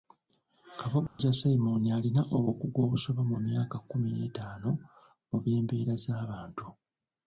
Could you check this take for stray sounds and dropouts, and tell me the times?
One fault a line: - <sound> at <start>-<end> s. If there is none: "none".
- dropout at 1.1-1.2 s